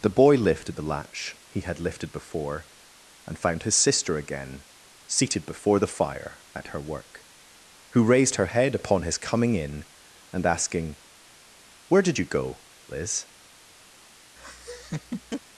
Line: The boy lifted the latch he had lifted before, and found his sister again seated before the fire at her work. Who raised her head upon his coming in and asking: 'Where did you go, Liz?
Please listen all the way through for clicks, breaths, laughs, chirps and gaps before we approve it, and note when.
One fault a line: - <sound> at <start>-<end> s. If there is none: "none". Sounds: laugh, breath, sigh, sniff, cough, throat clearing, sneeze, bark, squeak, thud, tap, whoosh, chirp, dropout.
- laugh at 14.4-15.4 s